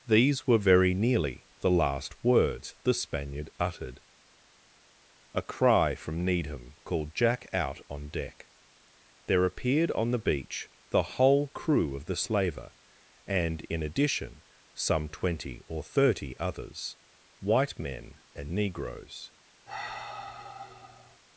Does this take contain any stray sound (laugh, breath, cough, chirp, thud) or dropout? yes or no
yes